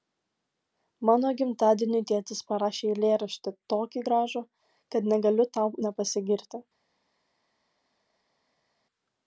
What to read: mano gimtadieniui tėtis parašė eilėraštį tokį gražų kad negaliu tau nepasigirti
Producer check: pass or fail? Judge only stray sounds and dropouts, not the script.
pass